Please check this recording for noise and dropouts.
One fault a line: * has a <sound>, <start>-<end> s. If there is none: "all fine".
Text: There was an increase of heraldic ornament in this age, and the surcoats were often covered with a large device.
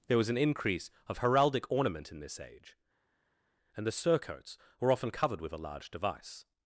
all fine